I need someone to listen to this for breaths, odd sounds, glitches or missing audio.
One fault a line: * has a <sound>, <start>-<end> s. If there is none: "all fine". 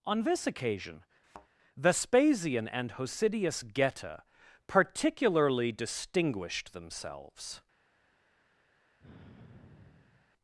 * has a thud, 1.2-1.5 s
* has a sigh, 9.0-10.3 s